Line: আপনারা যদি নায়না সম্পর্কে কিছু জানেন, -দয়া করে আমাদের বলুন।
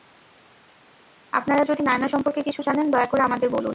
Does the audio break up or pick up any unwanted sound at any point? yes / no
no